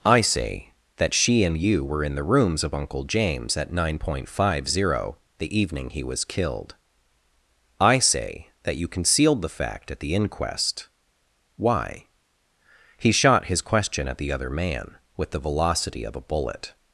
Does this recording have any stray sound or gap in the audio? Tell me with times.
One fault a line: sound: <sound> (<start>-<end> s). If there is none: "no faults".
no faults